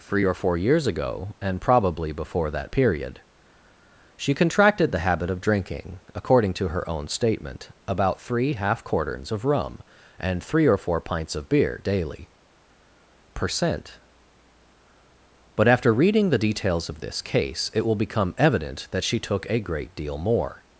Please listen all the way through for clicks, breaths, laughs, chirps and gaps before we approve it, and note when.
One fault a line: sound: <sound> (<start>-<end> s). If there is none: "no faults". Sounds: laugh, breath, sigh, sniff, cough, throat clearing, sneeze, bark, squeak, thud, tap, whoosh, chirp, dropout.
no faults